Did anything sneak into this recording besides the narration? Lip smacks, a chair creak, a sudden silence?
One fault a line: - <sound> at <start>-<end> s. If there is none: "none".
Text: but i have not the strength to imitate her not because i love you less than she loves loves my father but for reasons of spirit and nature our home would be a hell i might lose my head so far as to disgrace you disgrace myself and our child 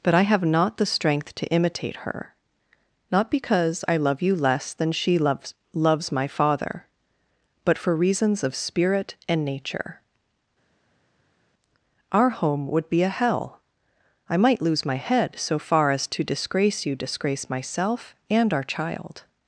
none